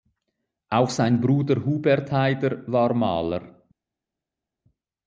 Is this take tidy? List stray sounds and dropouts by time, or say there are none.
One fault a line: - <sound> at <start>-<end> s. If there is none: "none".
none